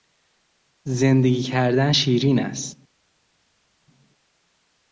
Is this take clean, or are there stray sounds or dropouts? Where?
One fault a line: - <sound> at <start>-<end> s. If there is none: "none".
none